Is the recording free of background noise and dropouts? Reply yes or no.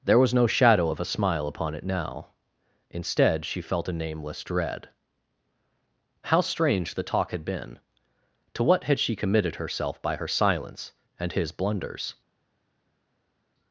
yes